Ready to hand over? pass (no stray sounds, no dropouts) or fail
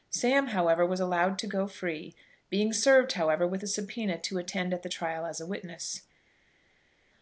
pass